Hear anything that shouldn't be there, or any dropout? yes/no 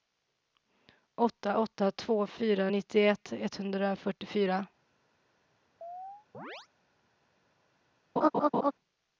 yes